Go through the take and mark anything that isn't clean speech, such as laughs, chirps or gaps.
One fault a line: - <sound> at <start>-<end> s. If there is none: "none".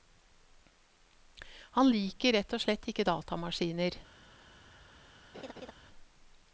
- laugh at 5.3-5.7 s